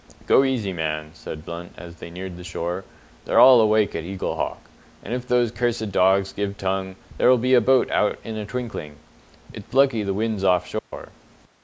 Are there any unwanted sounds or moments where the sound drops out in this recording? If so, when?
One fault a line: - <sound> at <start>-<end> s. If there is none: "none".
- dropout at 10.8-10.9 s